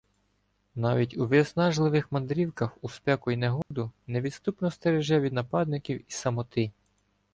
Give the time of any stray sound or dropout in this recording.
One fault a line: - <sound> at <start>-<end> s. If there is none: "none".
- dropout at 3.6-3.7 s